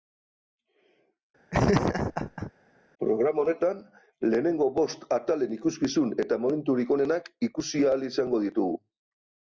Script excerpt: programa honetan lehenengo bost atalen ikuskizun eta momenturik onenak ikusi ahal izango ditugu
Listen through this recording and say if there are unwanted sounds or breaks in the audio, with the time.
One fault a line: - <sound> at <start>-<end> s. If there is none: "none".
- laugh at 1.5-2.5 s